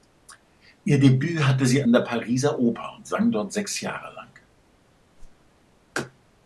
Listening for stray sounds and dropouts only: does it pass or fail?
fail